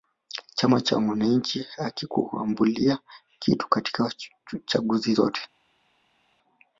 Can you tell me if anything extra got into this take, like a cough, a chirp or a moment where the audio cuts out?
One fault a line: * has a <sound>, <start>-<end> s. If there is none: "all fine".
all fine